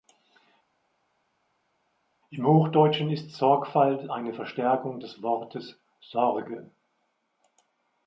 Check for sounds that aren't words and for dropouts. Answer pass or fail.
pass